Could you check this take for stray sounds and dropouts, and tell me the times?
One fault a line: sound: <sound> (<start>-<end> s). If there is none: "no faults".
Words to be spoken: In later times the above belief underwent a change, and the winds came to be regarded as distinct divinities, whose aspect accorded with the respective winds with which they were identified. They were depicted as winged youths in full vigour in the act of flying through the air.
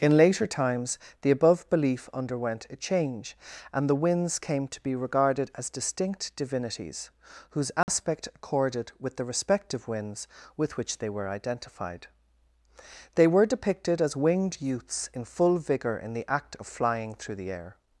sound: dropout (7.8-7.9 s)